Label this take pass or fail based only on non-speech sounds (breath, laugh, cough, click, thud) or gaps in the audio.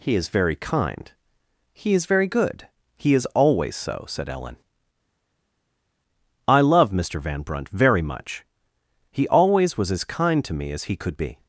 pass